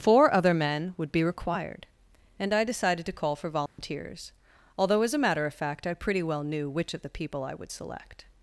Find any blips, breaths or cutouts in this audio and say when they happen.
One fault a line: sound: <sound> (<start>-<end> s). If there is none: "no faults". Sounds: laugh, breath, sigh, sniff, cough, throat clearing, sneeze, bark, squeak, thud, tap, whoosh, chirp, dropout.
sound: dropout (3.7-3.8 s)